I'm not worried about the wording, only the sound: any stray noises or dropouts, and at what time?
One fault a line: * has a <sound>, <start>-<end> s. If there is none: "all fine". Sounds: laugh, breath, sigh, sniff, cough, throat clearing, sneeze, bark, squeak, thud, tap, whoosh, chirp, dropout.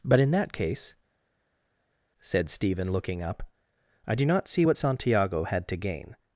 all fine